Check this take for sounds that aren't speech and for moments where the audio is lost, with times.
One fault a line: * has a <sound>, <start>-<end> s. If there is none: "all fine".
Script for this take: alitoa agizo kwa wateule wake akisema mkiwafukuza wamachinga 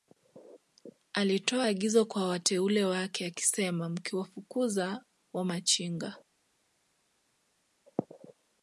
all fine